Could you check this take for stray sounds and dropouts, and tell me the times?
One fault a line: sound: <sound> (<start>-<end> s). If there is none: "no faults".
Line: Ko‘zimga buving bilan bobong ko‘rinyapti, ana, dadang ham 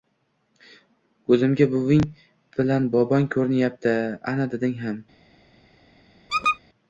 sound: squeak (6.3-6.6 s)